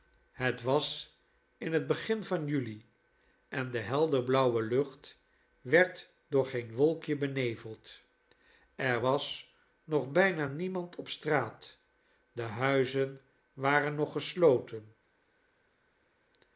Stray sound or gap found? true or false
false